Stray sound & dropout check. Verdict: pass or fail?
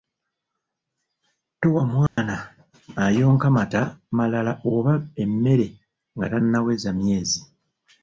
fail